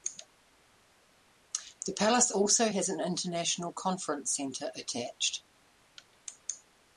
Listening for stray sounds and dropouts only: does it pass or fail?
pass